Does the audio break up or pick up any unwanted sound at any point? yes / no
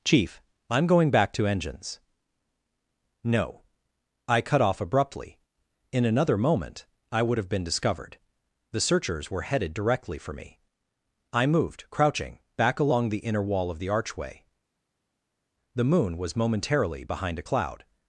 no